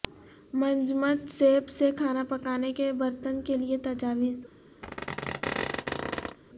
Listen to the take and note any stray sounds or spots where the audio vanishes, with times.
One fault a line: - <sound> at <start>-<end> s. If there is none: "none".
- squeak at 4.8-6.4 s